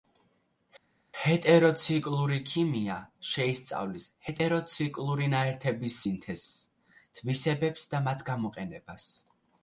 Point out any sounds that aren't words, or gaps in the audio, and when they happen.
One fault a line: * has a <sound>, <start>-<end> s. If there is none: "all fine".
all fine